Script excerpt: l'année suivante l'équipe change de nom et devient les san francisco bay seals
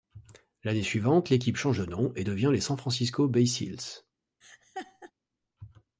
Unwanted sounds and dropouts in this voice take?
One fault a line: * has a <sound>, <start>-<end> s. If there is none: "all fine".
* has a laugh, 4.4-5.1 s